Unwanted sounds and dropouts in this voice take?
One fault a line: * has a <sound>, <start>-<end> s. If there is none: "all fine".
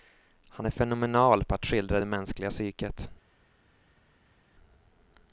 all fine